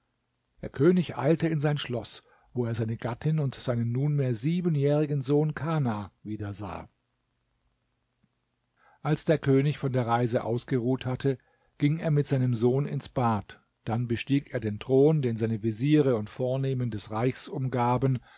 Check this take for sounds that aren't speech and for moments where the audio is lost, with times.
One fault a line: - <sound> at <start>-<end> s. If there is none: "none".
none